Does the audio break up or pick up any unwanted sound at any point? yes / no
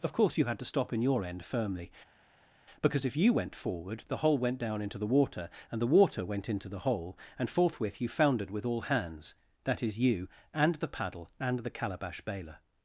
no